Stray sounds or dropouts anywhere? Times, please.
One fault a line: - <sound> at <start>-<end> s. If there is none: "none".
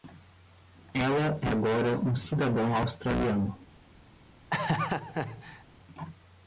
- laugh at 4.5-5.6 s